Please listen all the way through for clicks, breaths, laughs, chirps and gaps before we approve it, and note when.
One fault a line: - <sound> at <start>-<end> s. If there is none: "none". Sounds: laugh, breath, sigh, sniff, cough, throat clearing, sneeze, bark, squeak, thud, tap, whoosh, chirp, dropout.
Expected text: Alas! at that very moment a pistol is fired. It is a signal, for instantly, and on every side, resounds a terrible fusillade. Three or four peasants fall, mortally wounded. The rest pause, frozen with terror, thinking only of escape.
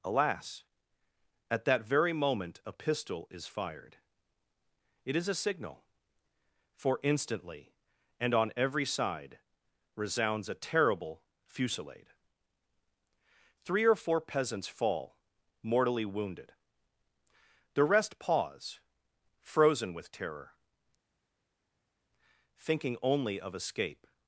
none